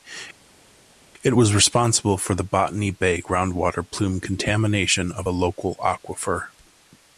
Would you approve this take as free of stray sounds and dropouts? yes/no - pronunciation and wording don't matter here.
yes